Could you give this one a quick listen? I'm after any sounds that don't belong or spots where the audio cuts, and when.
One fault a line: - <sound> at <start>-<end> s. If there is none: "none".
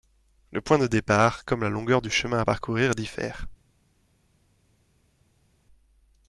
none